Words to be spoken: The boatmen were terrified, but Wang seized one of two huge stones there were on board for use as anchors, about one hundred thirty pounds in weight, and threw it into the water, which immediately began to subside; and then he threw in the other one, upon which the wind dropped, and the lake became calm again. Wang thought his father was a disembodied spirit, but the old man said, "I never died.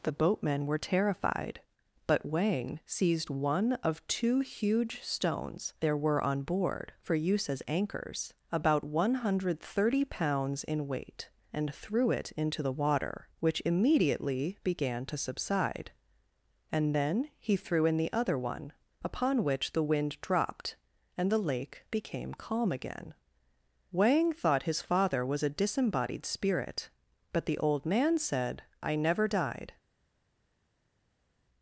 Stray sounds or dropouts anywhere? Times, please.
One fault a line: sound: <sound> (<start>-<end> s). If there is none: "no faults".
no faults